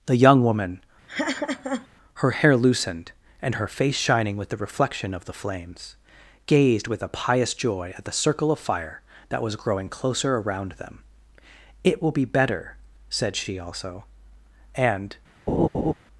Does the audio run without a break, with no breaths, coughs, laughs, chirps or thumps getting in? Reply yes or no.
no